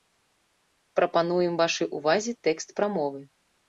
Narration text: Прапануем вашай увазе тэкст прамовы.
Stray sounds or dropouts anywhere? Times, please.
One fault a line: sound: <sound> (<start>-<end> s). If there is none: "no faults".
no faults